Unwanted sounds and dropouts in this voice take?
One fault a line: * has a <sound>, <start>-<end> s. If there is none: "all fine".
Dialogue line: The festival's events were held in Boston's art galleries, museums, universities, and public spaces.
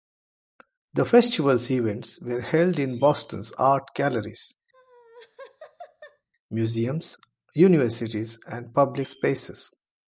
* has a laugh, 4.7-6.3 s